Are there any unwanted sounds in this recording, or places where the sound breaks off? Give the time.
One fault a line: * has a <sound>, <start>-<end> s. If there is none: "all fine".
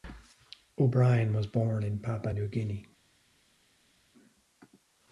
all fine